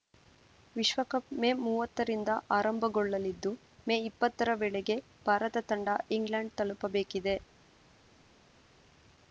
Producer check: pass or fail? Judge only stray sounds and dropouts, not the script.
pass